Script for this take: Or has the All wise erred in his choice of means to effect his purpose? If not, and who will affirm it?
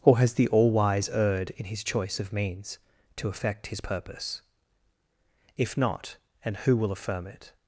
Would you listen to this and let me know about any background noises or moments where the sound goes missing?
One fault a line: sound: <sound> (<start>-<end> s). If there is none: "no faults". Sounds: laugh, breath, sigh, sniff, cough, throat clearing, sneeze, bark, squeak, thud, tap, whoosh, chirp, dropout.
no faults